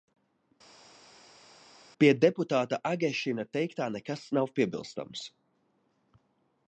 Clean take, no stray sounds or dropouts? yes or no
yes